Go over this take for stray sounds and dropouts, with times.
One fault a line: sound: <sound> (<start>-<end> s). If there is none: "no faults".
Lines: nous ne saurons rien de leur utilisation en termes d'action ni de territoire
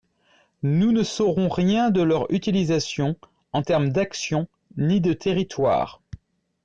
no faults